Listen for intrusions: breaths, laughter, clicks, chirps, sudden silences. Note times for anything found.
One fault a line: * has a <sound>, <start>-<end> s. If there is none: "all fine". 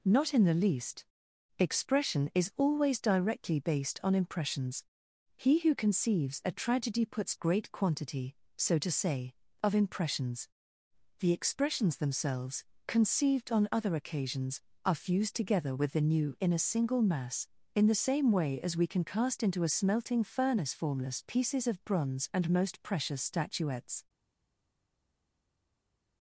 all fine